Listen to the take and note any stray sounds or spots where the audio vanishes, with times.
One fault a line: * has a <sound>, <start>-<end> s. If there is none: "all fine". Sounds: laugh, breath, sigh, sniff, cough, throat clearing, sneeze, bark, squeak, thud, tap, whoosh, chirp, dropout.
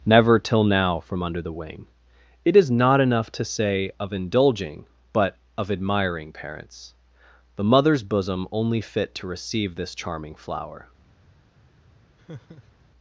* has a laugh, 12.2-12.9 s